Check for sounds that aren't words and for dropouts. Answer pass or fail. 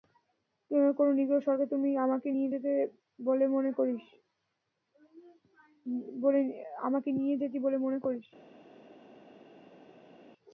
pass